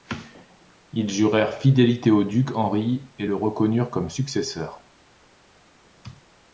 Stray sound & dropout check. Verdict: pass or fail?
pass